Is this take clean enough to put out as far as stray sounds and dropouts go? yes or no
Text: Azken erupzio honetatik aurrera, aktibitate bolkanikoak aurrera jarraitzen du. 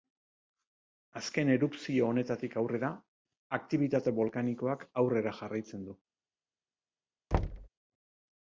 no